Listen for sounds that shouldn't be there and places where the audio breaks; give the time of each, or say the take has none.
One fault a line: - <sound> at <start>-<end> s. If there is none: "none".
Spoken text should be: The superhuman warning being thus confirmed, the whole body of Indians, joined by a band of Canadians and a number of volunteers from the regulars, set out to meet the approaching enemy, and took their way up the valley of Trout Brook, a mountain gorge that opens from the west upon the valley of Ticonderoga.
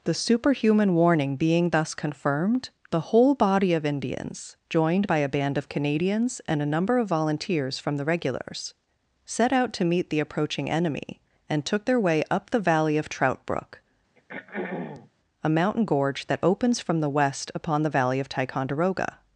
- throat clearing at 14.2-15.1 s